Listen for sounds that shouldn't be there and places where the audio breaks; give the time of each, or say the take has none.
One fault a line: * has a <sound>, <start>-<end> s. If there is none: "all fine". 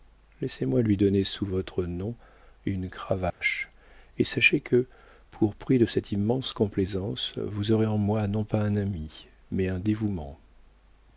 * has a dropout, 3.3-3.4 s